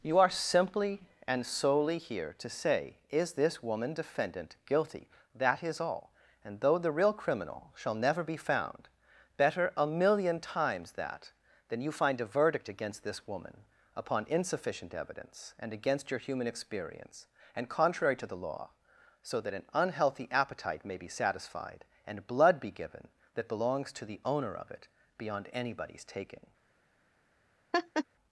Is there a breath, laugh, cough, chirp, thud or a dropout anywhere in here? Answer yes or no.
yes